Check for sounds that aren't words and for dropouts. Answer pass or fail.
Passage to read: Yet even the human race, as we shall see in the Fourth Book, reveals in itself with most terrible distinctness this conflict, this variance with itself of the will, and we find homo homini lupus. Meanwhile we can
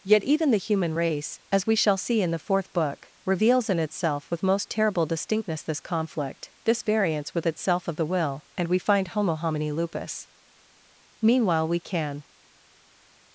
pass